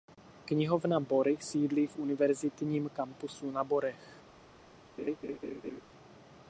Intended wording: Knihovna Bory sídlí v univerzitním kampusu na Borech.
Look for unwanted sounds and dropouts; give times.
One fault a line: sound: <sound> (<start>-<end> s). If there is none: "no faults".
sound: laugh (5.0-5.8 s)